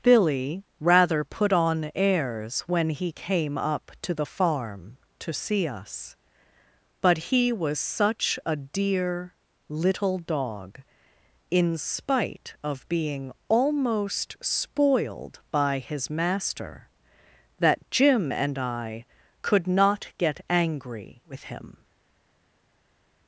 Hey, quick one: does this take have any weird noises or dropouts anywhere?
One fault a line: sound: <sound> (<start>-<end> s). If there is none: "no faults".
no faults